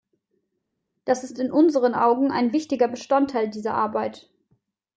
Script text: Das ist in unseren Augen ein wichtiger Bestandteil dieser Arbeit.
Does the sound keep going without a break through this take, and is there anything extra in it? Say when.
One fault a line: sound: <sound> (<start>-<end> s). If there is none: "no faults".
no faults